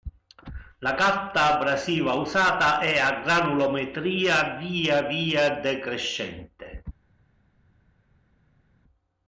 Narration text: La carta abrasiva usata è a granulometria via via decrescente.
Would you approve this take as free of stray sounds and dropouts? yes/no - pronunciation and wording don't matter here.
yes